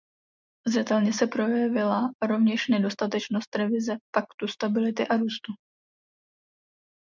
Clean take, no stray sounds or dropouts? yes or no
yes